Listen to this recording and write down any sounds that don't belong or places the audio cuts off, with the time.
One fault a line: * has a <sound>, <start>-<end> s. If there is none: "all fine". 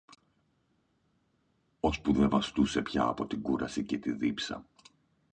all fine